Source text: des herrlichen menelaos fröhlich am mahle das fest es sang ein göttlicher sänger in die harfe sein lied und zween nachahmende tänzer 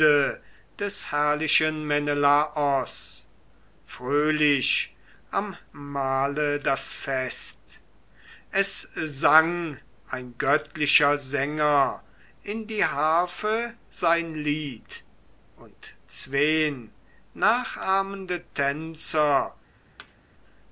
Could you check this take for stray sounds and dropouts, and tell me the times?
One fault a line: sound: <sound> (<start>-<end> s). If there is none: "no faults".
sound: thud (20.0-20.1 s)